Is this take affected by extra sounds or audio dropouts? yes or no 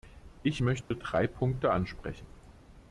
yes